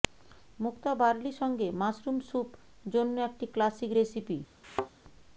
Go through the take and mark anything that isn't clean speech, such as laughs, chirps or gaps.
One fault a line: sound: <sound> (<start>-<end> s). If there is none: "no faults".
sound: thud (4.6-4.9 s)